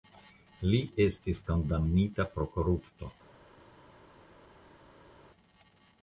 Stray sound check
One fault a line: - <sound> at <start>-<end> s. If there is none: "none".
none